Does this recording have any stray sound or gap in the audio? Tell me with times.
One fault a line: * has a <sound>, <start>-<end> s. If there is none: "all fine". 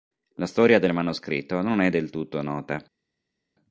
all fine